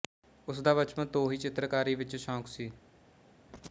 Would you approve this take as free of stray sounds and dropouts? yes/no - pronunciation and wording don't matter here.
yes